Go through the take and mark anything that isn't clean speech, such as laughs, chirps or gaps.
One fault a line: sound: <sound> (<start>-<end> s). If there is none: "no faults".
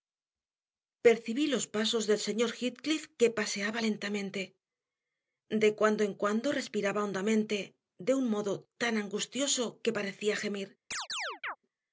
sound: chirp (10.9-11.6 s)